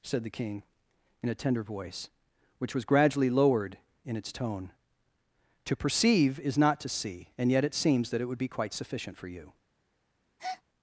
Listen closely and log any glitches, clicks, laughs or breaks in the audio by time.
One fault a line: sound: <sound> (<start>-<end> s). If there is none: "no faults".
sound: breath (10.4-10.6 s)